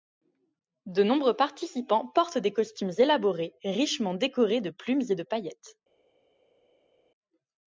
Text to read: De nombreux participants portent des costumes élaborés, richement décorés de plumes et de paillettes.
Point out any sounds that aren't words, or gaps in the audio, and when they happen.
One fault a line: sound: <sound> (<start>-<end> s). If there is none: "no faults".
no faults